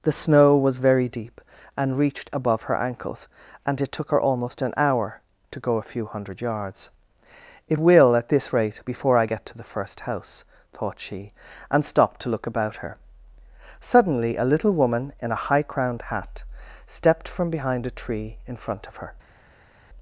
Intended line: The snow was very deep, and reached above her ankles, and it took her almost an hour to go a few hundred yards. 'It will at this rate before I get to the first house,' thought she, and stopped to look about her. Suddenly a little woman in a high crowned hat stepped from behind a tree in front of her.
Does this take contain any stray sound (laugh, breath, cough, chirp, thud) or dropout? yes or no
no